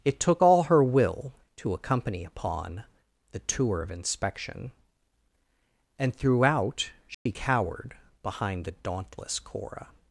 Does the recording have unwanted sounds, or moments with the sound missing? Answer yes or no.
yes